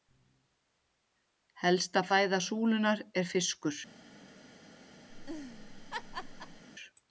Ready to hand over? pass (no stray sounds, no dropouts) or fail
fail